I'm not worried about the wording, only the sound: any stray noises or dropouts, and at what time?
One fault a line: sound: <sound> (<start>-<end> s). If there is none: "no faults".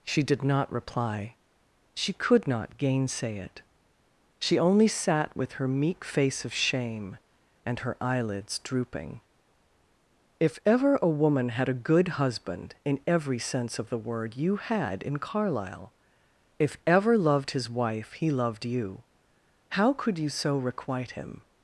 no faults